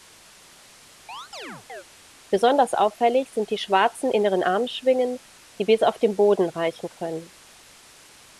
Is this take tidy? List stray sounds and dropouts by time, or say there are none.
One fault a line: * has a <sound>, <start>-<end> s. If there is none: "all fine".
* has a chirp, 1.1-1.8 s